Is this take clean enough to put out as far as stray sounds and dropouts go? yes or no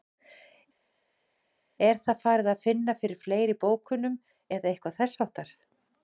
yes